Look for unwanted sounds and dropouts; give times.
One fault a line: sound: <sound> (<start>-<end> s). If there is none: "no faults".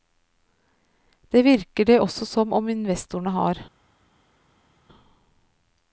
no faults